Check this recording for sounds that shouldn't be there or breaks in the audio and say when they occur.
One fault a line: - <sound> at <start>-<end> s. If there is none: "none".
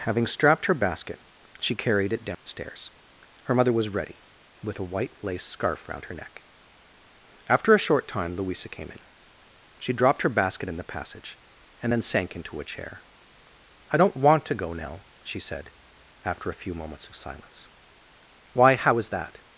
- dropout at 2.3-2.5 s